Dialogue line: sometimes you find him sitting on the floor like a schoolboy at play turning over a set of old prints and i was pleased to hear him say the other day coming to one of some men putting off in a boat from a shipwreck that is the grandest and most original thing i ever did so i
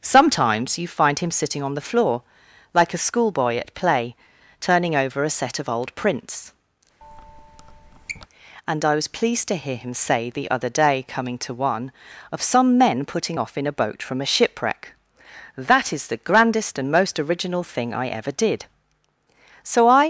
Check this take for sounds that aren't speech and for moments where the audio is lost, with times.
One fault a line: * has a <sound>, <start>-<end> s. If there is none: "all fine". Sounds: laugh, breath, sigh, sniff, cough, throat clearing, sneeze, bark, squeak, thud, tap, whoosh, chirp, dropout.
* has a squeak, 7.0-8.3 s